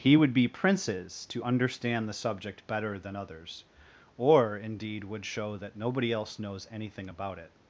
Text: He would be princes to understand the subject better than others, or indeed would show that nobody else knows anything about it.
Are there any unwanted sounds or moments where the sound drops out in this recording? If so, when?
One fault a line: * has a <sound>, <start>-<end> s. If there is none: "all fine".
all fine